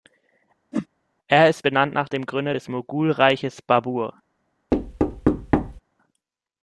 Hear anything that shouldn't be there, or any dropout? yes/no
yes